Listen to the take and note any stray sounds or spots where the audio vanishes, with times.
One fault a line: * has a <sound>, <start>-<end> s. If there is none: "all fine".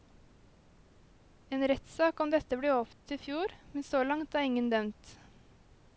* has a dropout, 2.9-3.1 s